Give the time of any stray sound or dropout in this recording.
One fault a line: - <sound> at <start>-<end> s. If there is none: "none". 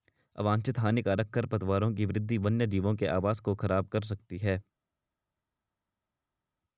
none